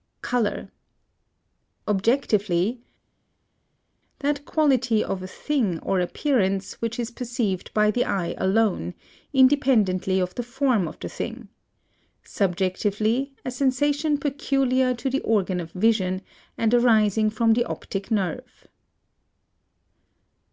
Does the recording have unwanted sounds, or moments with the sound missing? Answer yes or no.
no